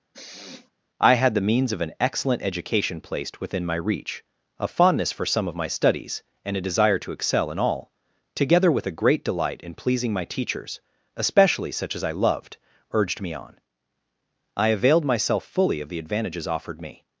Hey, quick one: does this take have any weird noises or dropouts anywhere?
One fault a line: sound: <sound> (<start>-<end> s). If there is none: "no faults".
sound: sniff (0.1-0.7 s)